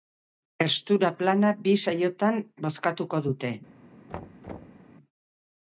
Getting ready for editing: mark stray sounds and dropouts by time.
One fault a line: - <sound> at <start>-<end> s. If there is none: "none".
- thud at 4.1-4.9 s